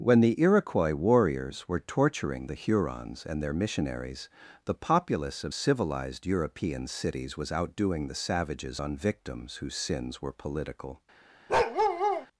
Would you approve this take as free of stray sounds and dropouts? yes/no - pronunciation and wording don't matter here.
no